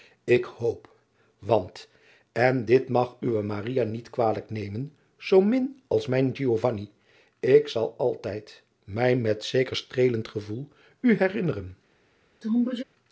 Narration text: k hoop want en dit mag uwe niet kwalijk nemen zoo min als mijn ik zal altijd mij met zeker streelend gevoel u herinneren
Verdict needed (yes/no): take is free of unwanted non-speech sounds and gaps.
no